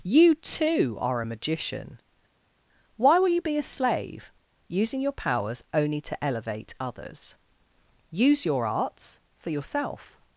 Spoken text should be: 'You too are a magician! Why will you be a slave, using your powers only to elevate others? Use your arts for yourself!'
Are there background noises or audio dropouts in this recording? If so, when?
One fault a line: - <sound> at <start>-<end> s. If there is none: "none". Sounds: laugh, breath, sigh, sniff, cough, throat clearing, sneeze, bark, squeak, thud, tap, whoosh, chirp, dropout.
none